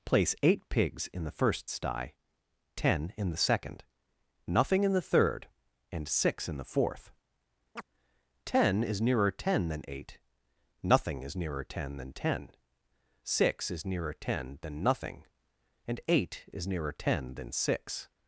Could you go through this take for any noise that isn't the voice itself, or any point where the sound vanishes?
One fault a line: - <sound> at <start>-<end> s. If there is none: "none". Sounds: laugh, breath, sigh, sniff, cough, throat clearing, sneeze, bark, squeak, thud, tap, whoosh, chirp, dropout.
- chirp at 7.8-7.8 s